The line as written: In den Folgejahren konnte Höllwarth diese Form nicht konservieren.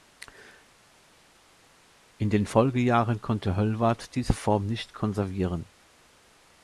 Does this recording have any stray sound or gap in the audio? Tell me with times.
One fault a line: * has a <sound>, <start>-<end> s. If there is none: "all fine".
all fine